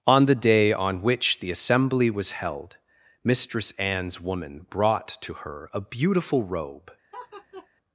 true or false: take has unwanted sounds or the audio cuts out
true